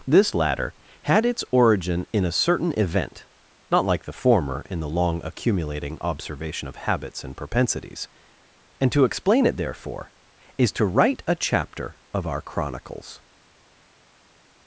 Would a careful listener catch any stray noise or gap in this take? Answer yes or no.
no